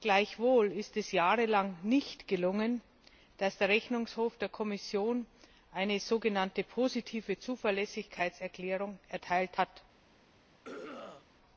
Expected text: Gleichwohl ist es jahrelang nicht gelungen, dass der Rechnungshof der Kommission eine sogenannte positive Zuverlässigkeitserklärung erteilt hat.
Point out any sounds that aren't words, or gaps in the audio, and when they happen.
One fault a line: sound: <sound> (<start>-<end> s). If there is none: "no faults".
sound: throat clearing (10.6-11.3 s)